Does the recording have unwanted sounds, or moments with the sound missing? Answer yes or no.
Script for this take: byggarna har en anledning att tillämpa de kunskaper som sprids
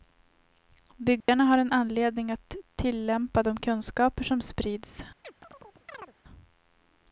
yes